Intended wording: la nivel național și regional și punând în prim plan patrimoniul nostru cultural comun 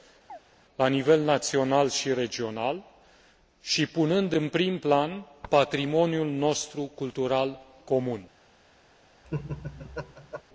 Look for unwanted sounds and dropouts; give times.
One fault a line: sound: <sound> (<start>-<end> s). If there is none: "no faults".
sound: chirp (0.3-0.4 s)
sound: laugh (9.2-10.4 s)